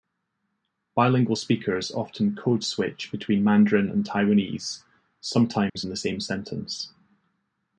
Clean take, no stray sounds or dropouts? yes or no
no